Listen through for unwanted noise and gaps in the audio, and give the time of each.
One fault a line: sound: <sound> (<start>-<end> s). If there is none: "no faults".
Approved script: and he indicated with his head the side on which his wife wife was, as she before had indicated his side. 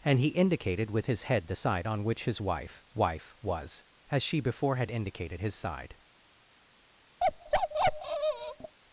sound: bark (7.2-8.8 s)